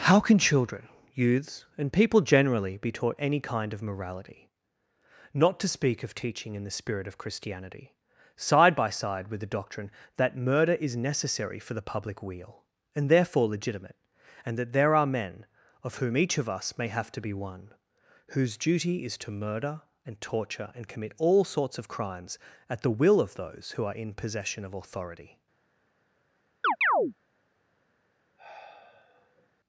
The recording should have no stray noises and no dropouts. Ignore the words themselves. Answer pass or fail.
fail